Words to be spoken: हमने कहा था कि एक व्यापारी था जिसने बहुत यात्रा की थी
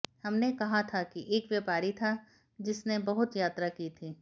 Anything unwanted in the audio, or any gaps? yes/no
no